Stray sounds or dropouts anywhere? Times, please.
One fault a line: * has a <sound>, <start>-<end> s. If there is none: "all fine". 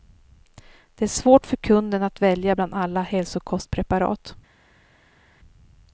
all fine